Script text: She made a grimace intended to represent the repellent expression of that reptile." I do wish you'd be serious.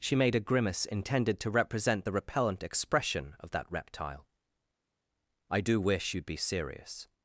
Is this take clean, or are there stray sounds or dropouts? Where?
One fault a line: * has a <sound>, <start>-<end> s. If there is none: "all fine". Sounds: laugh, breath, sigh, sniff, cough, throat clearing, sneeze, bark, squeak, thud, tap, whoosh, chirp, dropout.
all fine